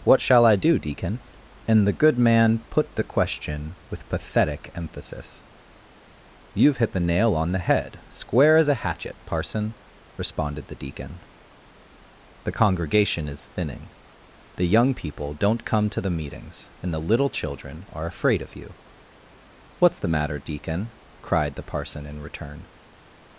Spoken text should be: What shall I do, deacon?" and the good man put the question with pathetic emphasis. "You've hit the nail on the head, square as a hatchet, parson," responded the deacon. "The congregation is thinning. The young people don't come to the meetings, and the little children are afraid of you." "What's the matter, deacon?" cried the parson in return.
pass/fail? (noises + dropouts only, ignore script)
pass